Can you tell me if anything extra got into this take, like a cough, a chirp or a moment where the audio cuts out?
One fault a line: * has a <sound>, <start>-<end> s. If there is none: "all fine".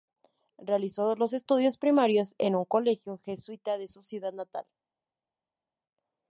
all fine